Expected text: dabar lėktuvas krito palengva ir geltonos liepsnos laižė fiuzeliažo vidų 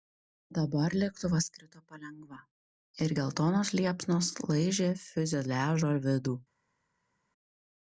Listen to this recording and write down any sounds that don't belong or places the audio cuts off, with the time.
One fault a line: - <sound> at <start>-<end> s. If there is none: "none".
none